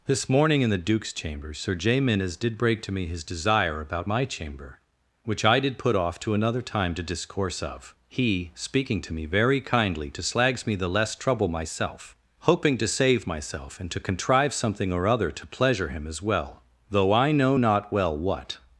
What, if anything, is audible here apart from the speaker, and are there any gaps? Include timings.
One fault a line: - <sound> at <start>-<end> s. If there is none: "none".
none